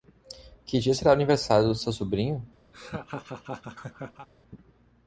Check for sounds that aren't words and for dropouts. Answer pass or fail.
fail